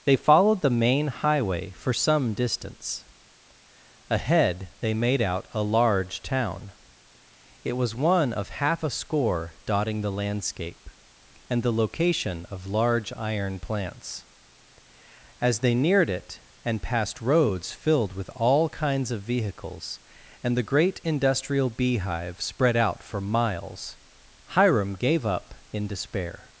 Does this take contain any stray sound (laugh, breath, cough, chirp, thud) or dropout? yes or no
no